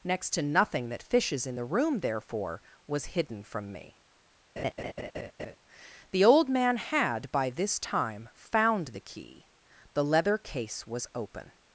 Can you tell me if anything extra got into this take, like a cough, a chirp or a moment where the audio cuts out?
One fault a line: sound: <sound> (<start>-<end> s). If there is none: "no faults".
sound: laugh (4.6-5.6 s)